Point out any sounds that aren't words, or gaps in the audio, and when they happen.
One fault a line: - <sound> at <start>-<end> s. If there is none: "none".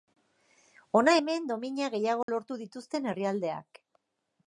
- dropout at 2.2-2.3 s